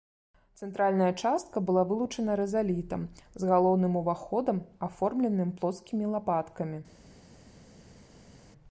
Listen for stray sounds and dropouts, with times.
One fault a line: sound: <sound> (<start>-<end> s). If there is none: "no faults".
no faults